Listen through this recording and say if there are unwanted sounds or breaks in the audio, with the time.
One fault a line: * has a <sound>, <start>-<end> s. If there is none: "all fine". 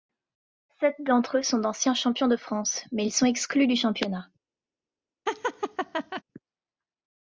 * has a laugh, 5.3-6.2 s